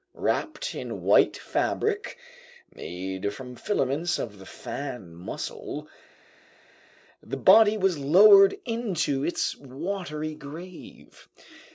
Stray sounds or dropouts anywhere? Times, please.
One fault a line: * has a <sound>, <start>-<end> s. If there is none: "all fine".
all fine